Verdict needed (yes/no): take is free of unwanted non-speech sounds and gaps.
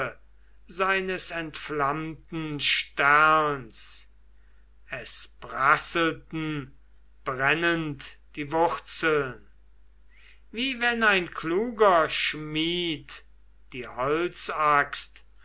yes